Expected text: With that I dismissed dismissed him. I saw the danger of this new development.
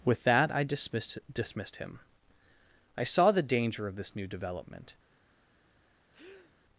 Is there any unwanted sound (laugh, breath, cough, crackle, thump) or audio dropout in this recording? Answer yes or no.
yes